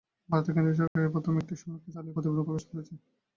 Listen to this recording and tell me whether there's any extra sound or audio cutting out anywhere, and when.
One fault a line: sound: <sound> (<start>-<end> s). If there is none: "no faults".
sound: dropout (0.9-1.0 s)